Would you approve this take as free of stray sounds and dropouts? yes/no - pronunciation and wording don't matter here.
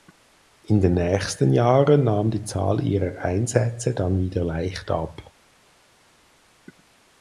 yes